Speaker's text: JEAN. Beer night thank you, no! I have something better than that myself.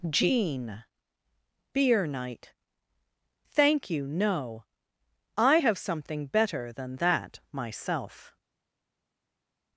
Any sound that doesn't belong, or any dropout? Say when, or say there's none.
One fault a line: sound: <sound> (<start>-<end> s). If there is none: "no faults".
no faults